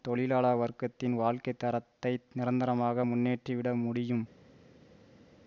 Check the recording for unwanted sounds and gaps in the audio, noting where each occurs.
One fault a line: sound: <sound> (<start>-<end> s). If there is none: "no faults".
no faults